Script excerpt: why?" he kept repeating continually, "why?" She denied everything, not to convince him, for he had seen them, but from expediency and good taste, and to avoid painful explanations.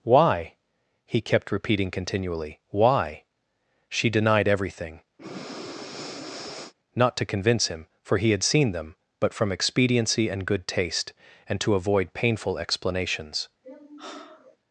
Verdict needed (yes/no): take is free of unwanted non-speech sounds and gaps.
no